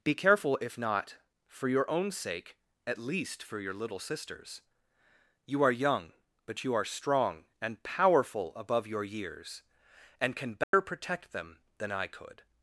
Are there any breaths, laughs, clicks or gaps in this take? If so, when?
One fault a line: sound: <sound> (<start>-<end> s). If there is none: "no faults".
sound: dropout (10.6-10.7 s)